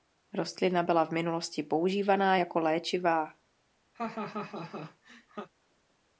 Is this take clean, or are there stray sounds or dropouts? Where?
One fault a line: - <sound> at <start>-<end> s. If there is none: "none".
- laugh at 3.9-5.5 s